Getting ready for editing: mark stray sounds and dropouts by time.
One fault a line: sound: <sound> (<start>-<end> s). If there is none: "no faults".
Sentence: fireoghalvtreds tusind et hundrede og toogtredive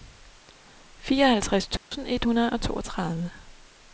sound: dropout (1.8-1.9 s)